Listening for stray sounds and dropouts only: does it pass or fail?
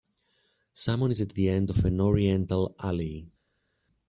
pass